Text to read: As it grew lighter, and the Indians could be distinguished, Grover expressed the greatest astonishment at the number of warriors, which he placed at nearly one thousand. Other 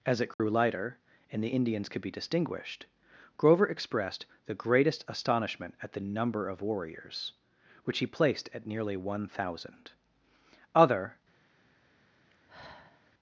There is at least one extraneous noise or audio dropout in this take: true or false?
true